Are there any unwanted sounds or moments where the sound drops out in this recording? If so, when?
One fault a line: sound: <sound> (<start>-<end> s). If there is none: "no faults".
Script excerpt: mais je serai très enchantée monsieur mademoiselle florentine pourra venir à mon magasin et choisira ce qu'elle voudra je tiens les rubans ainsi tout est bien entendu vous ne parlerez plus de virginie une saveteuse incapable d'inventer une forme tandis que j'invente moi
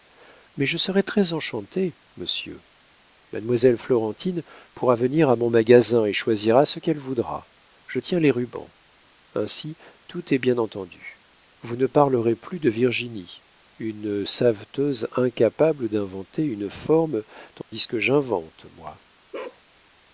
sound: dropout (17.6-17.7 s)
sound: bark (19.3-19.6 s)